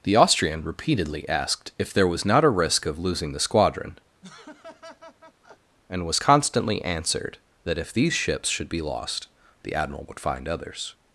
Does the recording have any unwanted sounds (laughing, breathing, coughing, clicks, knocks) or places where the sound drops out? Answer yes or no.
yes